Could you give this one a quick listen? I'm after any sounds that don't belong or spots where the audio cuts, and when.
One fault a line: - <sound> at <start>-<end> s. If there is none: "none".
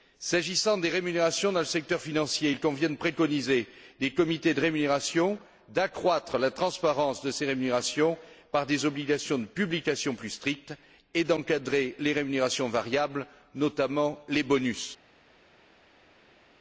none